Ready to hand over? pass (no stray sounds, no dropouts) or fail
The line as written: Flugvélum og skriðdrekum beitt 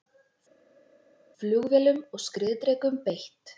pass